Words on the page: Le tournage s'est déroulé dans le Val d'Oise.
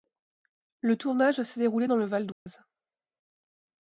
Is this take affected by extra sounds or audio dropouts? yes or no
yes